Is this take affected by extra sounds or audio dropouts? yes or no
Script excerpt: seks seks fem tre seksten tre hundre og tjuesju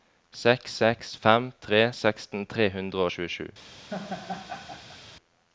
yes